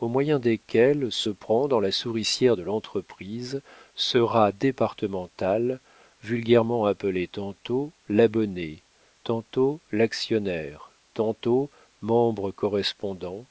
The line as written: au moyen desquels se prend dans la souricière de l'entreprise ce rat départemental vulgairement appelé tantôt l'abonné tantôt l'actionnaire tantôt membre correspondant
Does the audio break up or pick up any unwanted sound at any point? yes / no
no